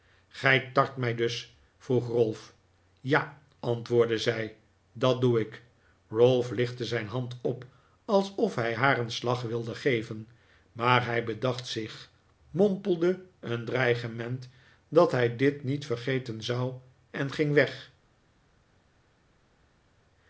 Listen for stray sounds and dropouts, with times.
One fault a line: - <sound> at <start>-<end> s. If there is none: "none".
none